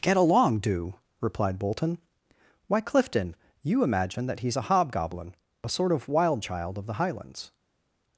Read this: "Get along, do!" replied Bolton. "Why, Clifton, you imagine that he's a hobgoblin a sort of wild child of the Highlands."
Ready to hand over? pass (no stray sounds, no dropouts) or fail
pass